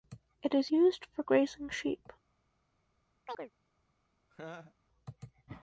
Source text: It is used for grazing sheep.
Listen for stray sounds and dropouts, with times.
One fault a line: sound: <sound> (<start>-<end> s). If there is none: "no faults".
sound: chirp (3.3-3.5 s)
sound: laugh (4.3-4.7 s)